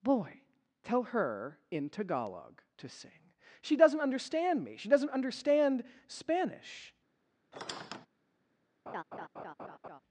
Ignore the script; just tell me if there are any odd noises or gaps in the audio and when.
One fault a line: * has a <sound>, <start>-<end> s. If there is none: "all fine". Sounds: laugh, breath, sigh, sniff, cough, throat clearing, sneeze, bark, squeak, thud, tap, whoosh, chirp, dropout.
* has a squeak, 7.5-8.1 s
* has a laugh, 8.9-10.0 s